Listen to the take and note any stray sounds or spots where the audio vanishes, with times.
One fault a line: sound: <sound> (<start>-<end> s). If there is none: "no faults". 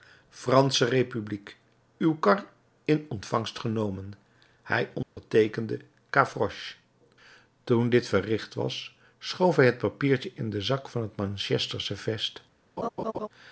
sound: dropout (5.0-5.2 s)
sound: laugh (12.8-13.3 s)